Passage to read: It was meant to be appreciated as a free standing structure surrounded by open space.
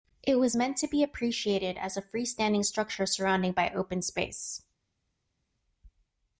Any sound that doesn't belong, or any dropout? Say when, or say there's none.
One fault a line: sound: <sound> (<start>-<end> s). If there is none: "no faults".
no faults